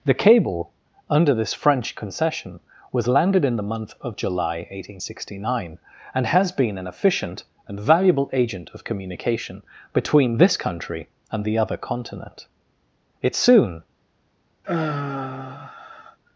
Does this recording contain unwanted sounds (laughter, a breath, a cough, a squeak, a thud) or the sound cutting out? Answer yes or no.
yes